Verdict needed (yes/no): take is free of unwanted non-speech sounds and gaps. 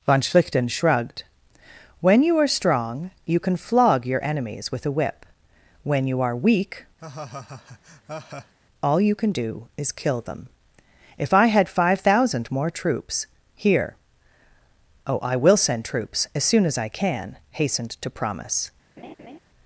no